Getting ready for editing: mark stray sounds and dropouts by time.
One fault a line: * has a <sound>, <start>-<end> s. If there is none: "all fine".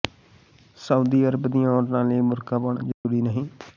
* has a dropout, 2.9-3.0 s